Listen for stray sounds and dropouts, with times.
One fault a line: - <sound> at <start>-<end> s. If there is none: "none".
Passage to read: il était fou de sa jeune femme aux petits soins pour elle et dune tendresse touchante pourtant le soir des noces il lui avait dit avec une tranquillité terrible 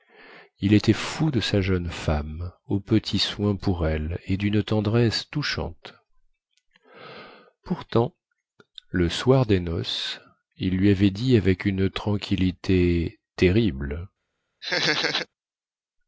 - laugh at 14.6-15.3 s